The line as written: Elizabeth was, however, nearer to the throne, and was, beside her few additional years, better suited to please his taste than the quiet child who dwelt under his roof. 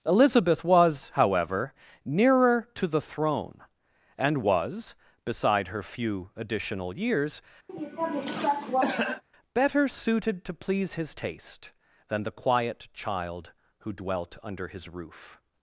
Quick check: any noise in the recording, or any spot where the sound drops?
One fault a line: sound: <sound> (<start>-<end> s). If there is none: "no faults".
sound: cough (7.7-9.2 s)